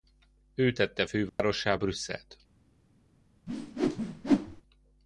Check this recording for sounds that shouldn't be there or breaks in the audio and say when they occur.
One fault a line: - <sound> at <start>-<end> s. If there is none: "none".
- dropout at 1.3-1.4 s
- whoosh at 3.5-4.6 s